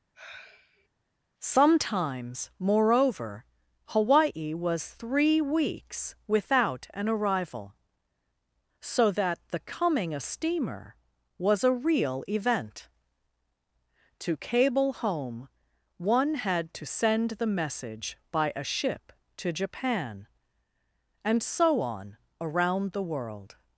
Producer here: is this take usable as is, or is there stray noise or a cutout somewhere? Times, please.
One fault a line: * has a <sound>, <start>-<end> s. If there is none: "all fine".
* has a sigh, 0.1-0.9 s